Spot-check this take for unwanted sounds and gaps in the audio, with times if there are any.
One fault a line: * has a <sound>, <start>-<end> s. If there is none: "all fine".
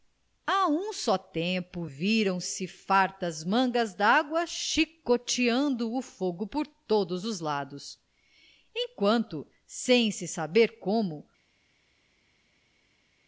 all fine